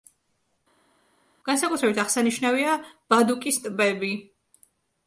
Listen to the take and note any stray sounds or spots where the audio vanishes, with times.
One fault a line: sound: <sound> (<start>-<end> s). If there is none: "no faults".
no faults